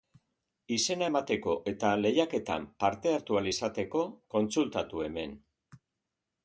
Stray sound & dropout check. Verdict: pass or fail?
pass